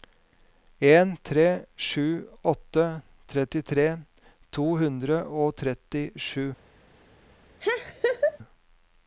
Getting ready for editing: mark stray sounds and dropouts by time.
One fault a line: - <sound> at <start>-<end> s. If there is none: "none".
- laugh at 7.6-8.4 s